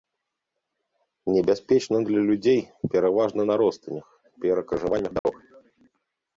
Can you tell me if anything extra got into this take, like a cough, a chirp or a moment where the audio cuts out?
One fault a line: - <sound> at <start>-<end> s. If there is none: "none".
- dropout at 5.2-5.3 s